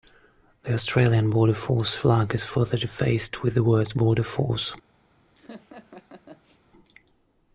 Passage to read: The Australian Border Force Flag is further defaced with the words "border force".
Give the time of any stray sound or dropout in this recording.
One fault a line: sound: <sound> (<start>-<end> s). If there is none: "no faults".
sound: laugh (5.4-6.6 s)